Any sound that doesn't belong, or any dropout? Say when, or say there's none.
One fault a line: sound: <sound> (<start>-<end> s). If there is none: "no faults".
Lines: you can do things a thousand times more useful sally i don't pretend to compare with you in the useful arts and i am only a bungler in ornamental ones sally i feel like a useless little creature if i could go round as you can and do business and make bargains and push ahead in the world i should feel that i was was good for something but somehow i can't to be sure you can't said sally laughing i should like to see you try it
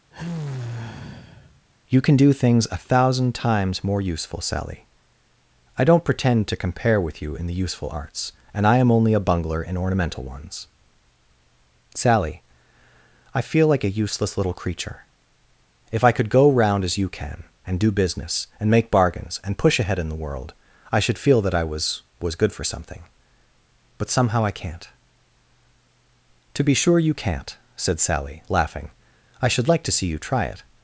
sound: sigh (0.1-1.7 s)